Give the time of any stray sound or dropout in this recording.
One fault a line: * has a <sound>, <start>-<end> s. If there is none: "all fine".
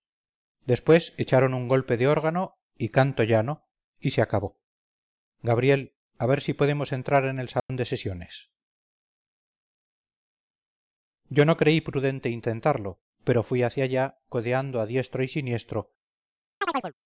* has a dropout, 7.6-7.7 s
* has a chirp, 16.6-16.9 s